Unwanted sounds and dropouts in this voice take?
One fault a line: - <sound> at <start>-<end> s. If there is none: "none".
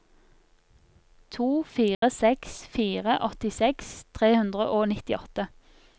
- dropout at 1.9-2.0 s